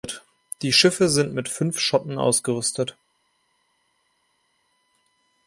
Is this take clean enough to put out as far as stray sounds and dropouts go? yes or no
yes